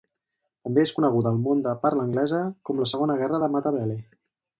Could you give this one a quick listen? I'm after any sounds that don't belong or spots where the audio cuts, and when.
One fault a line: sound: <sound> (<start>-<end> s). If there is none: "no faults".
no faults